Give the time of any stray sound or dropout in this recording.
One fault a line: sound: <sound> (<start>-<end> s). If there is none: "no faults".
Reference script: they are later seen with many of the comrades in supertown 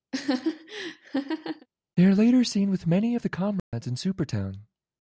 sound: laugh (0.1-1.7 s)
sound: dropout (3.6-3.7 s)